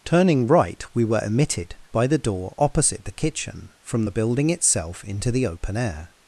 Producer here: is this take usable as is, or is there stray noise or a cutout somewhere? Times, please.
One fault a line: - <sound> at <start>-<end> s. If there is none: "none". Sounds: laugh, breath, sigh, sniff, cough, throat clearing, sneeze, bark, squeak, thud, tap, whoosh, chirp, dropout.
none